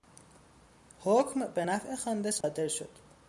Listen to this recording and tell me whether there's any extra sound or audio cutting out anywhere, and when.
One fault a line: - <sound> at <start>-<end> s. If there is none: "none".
- dropout at 2.4-2.4 s